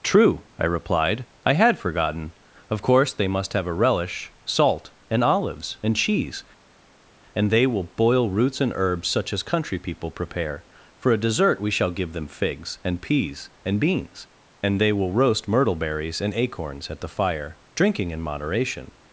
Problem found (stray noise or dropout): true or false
false